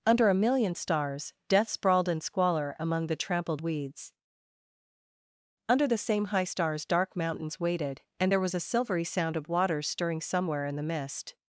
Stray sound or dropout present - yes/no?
no